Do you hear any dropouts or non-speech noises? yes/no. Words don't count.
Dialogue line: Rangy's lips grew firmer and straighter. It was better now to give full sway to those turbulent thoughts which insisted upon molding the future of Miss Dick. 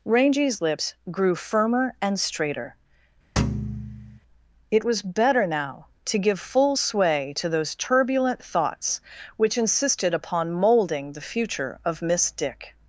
yes